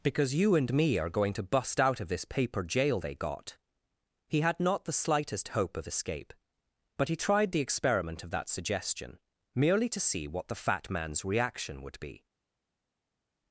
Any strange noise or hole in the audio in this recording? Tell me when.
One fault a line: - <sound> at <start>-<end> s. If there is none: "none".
none